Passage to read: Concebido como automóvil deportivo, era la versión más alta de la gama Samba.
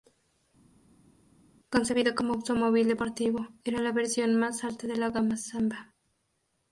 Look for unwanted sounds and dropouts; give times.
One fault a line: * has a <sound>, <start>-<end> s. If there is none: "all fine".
all fine